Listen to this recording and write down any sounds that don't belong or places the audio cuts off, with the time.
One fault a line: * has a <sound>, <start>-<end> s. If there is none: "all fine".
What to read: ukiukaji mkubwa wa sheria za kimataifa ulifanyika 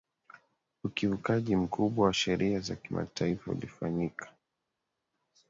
all fine